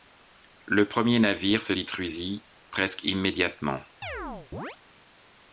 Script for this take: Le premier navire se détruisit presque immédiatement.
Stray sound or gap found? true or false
true